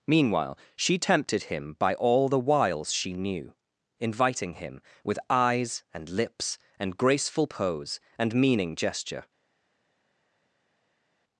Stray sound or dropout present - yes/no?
no